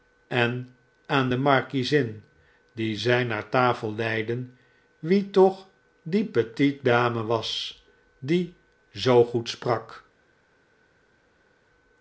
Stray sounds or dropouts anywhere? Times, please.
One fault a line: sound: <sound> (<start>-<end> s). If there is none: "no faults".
no faults